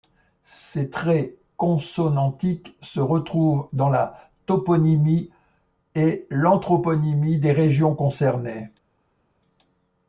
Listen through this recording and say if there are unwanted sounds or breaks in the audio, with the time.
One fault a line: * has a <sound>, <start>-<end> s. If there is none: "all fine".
all fine